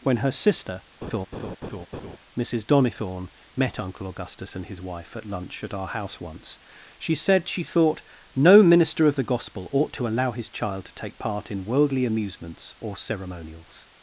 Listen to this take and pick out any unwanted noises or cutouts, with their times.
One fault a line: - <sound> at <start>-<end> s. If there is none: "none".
- laugh at 1.0-2.2 s